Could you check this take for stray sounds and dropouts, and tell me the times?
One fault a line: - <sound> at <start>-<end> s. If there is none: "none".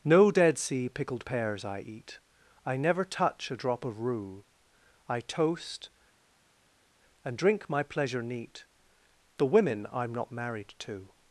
none